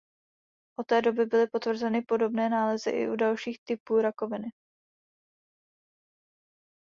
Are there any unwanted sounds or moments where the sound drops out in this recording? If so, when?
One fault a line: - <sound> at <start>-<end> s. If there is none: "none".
none